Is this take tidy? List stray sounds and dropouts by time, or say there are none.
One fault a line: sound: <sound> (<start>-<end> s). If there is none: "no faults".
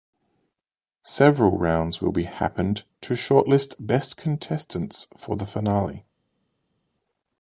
no faults